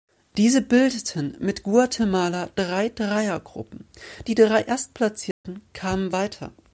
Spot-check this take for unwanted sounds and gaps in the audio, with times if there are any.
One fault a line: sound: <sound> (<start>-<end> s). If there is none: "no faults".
sound: dropout (5.3-5.4 s)